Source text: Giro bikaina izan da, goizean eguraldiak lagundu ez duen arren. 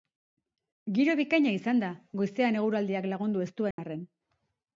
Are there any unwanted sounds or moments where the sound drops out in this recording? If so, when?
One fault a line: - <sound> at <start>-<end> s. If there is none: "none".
- dropout at 3.7-3.8 s